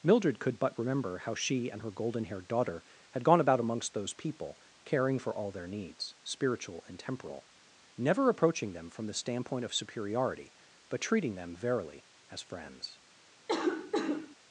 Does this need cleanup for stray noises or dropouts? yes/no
yes